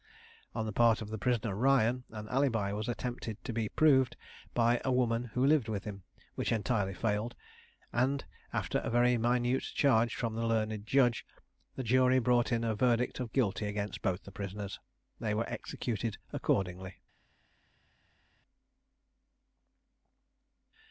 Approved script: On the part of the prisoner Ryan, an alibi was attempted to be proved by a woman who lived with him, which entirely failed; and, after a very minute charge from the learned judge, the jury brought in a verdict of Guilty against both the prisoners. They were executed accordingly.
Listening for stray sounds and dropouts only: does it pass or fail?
pass